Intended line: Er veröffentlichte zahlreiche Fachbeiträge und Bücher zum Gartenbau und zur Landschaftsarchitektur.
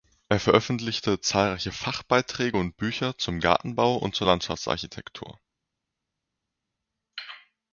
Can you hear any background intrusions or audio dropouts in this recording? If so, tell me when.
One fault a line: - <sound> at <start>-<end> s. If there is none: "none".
none